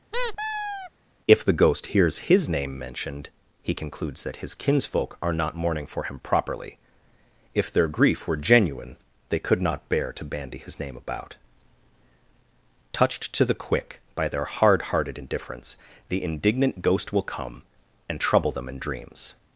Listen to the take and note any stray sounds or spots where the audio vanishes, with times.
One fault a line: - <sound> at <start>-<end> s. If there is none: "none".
- squeak at 0.1-0.9 s